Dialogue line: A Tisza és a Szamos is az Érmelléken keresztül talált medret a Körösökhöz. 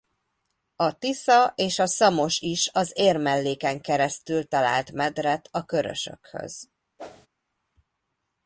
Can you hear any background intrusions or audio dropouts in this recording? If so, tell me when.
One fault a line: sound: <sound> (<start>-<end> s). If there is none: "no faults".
sound: whoosh (7.0-7.3 s)